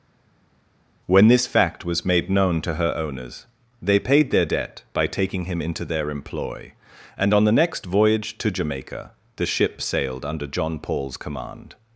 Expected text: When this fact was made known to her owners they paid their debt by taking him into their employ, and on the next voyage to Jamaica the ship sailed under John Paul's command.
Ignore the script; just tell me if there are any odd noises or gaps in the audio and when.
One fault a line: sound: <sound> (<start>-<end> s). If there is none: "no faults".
no faults